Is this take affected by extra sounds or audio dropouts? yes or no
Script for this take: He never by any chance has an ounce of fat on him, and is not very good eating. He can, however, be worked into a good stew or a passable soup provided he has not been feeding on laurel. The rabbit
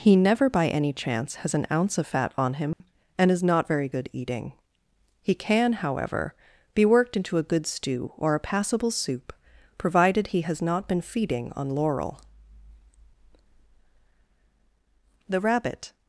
yes